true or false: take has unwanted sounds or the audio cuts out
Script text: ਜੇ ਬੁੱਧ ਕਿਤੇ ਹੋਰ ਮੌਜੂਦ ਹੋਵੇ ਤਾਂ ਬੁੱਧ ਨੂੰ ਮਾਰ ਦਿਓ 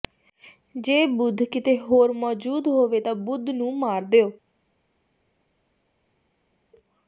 false